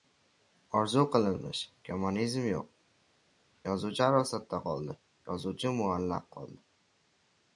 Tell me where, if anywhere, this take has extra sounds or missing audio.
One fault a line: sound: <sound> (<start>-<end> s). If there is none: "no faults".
no faults